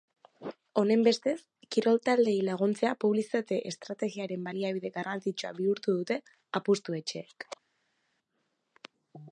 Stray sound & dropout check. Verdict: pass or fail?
pass